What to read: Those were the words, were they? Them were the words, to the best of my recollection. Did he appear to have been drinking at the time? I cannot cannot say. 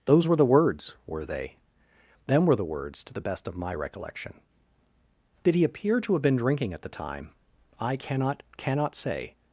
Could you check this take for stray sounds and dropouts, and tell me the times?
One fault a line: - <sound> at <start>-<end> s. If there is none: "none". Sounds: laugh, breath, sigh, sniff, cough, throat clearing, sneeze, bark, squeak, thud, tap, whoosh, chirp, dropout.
none